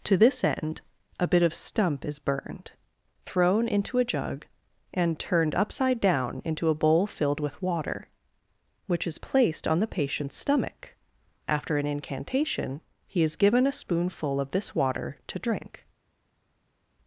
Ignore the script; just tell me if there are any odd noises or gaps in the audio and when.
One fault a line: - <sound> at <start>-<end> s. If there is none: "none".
none